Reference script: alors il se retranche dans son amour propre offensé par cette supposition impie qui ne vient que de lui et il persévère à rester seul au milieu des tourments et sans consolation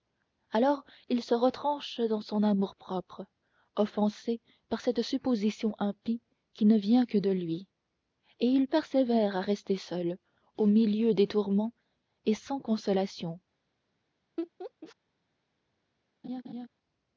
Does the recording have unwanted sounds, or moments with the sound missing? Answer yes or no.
yes